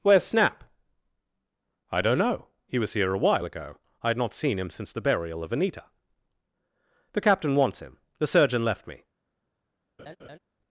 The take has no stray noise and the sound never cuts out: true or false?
false